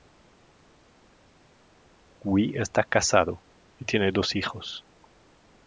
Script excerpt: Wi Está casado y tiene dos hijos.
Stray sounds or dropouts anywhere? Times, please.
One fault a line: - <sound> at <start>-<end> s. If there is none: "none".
none